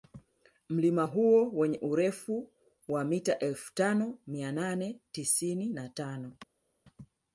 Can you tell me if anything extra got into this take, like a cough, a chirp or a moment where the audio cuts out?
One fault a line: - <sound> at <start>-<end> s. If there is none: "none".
none